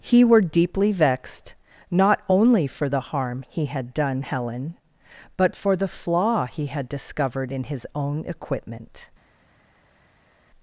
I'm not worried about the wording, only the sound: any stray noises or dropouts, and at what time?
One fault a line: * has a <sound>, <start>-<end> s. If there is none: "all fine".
all fine